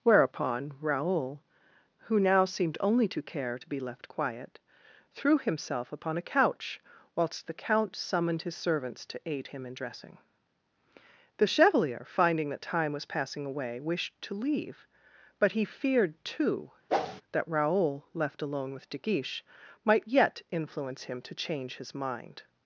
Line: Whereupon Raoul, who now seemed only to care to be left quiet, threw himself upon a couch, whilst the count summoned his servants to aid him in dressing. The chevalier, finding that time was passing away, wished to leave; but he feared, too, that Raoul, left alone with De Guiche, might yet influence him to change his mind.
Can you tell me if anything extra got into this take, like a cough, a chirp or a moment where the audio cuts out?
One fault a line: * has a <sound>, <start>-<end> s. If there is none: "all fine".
* has a whoosh, 16.9-17.2 s